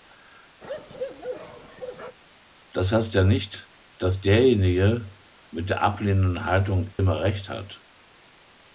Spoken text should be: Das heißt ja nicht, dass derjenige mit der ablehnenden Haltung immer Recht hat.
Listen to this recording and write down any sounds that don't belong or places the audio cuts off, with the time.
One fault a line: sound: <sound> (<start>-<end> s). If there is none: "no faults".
sound: bark (0.6-2.2 s)
sound: dropout (6.9-7.0 s)